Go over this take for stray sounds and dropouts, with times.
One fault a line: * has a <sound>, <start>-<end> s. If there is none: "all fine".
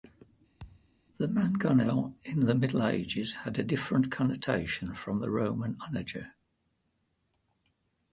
* has a thud, 0.6-0.9 s